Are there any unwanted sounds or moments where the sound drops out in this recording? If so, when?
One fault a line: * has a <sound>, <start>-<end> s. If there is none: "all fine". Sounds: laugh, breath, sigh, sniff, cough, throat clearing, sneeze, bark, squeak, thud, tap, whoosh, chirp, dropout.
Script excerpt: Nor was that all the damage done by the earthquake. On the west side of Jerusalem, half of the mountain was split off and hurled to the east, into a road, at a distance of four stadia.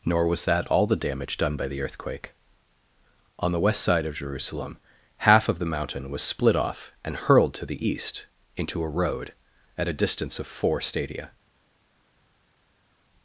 all fine